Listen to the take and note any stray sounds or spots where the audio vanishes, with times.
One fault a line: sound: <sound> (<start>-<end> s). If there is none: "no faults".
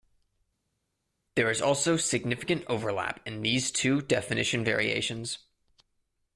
no faults